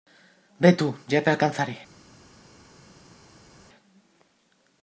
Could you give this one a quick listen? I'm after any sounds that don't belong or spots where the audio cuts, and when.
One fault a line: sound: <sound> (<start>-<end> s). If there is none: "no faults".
no faults